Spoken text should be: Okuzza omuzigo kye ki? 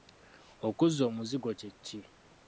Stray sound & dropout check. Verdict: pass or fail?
pass